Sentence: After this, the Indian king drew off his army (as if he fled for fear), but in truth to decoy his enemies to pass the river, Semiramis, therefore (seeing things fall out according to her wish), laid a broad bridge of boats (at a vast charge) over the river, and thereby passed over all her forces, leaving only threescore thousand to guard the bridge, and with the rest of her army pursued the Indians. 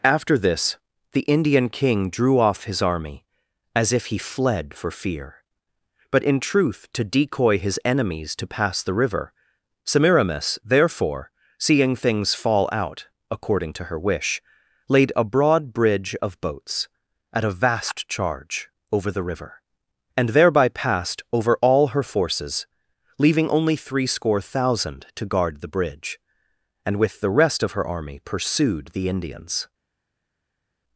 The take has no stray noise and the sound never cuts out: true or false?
true